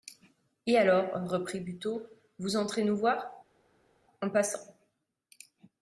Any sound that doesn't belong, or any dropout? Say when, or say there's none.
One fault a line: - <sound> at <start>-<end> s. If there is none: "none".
none